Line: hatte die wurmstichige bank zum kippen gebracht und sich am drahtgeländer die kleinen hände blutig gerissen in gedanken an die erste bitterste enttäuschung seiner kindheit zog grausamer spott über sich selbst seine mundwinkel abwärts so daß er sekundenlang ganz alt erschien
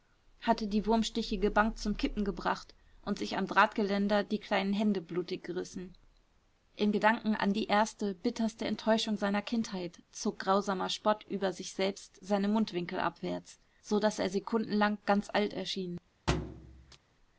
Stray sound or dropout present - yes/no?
yes